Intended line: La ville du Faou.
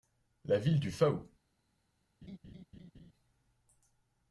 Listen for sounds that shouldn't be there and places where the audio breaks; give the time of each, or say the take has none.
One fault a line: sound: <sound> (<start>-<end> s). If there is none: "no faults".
sound: laugh (2.2-3.1 s)